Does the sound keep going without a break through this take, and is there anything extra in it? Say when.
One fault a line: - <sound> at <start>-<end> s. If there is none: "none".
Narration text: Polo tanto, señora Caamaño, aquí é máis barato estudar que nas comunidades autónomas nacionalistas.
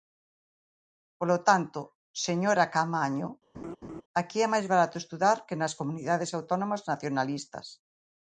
- laugh at 3.5-4.0 s